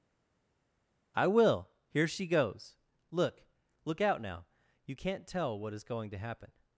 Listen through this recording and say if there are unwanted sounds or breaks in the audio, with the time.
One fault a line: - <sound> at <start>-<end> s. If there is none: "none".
none